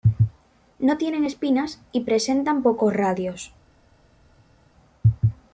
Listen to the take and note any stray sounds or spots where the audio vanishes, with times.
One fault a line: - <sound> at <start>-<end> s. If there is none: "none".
none